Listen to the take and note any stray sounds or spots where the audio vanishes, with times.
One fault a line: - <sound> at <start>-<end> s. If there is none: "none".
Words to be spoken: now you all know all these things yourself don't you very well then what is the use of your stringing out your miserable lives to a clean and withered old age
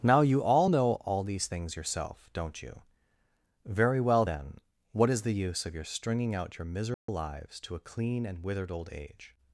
- dropout at 6.9-7.1 s